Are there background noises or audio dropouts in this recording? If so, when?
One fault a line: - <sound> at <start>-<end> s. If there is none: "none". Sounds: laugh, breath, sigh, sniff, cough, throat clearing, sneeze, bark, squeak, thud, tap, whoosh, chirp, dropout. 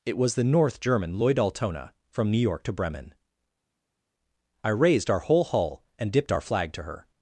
none